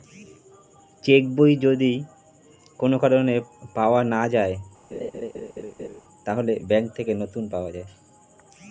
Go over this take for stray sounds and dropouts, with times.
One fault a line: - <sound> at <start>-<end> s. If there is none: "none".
- laugh at 4.9-6.0 s